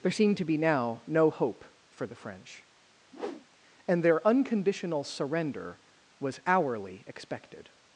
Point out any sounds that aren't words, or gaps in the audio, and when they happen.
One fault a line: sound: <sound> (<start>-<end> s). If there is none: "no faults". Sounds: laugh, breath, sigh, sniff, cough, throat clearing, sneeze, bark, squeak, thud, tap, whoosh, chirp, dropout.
sound: whoosh (3.1-3.5 s)